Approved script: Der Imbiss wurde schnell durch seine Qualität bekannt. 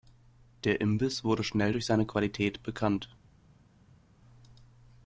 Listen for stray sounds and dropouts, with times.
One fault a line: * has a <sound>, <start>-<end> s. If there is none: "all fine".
all fine